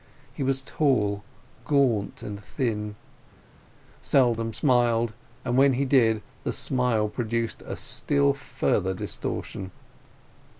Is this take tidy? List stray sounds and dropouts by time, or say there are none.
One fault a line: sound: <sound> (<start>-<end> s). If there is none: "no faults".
no faults